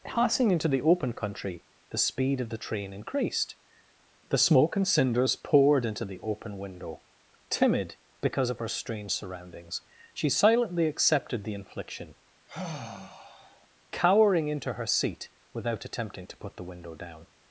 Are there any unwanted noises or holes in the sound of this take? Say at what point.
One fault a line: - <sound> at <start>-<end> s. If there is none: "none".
- sigh at 12.5-13.7 s